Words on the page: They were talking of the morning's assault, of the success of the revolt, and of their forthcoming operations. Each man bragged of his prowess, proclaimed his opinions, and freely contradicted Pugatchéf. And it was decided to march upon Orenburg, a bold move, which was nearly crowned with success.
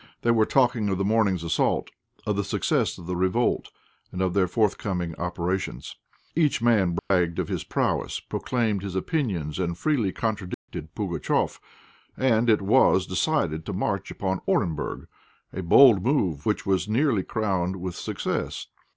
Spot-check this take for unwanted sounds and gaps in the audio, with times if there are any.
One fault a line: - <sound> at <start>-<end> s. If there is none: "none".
- dropout at 7.0-7.1 s
- dropout at 10.5-10.7 s